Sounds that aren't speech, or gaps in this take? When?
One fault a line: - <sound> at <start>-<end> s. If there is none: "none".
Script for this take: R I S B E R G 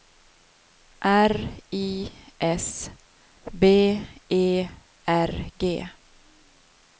none